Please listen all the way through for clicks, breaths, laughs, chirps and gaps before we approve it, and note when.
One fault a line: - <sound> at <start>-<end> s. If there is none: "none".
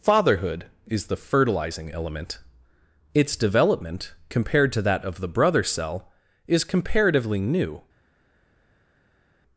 none